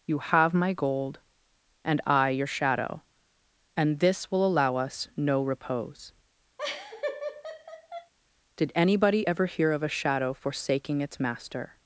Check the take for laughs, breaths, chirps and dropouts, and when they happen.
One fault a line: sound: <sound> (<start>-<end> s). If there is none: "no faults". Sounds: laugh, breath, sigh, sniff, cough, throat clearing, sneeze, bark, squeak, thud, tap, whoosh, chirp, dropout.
sound: laugh (6.6-8.1 s)